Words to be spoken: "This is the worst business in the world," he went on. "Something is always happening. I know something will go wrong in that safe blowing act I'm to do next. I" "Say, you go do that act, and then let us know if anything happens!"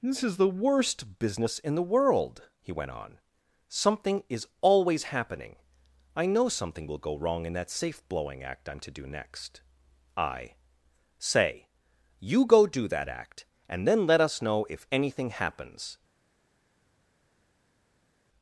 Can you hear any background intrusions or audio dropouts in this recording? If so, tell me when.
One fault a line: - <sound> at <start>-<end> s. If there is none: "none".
none